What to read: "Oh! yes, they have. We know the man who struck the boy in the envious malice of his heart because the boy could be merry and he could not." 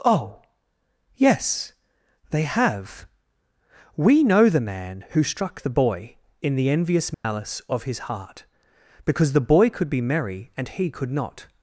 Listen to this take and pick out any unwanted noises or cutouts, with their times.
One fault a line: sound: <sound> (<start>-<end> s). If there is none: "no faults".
sound: dropout (7.1-7.2 s)